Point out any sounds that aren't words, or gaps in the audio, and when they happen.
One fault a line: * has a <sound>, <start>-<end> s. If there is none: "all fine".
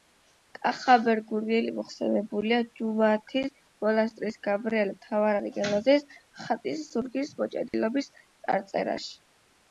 * has a dropout, 7.7-7.7 s